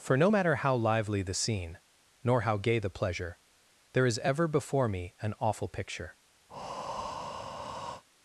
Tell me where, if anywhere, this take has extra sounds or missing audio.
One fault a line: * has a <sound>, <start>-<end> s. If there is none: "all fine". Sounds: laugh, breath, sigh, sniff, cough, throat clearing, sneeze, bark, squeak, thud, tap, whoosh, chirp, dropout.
* has a breath, 6.5-8.0 s